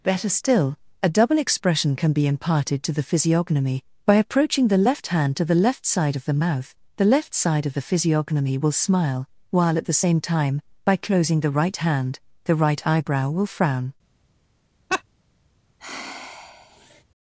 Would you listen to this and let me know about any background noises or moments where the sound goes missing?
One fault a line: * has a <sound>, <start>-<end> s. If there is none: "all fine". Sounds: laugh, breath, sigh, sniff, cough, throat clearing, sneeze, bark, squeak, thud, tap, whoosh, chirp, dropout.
* has a laugh, 14.9-15.0 s
* has a sigh, 15.8-17.0 s